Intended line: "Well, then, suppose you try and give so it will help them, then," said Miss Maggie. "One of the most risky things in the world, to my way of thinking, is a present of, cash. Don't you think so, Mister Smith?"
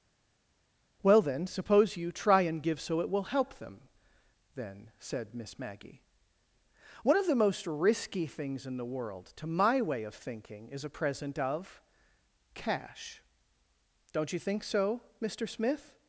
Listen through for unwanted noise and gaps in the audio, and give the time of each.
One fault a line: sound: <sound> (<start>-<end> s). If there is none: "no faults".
no faults